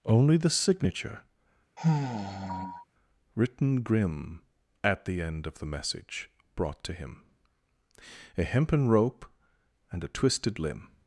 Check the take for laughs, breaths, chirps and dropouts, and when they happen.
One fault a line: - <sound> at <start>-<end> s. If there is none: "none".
- sigh at 1.8-2.8 s